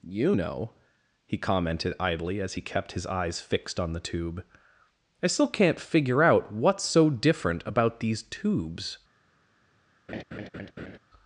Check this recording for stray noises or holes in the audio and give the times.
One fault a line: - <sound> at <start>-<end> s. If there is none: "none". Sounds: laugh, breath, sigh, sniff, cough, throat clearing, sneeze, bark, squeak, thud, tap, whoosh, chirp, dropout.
- laugh at 10.1-11.0 s